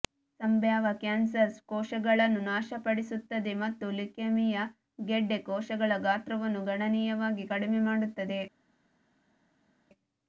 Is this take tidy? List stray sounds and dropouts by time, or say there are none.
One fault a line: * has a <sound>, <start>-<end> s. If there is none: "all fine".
all fine